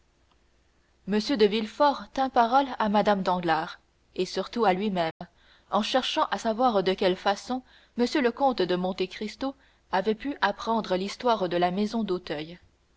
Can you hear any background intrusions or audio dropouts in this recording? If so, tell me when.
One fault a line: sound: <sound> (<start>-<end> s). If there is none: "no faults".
sound: dropout (5.1-5.2 s)